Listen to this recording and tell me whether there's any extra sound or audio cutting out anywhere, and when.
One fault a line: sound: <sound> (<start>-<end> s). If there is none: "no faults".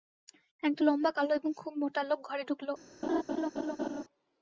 sound: laugh (3.0-4.0 s)